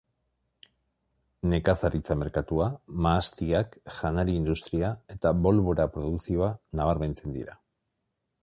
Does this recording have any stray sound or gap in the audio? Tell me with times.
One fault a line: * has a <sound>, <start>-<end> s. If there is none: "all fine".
all fine